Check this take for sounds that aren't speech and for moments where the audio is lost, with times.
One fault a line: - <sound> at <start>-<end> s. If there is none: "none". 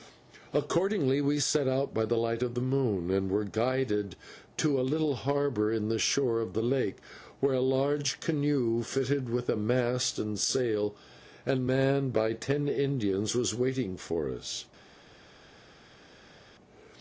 none